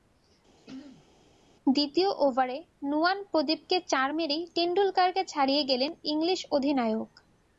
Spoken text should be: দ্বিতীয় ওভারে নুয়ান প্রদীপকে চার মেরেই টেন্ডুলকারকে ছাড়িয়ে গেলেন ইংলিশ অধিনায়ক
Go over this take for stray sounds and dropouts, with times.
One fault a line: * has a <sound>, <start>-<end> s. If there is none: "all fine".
* has a throat clearing, 0.6-1.1 s